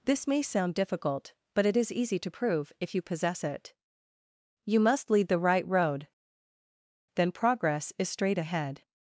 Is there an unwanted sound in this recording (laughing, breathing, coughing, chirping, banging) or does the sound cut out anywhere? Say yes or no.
no